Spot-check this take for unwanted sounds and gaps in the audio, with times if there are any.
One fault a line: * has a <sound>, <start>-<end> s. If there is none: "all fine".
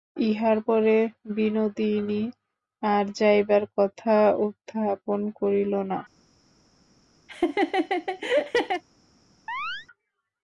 * has a laugh, 7.3-8.8 s
* has a chirp, 9.5-9.9 s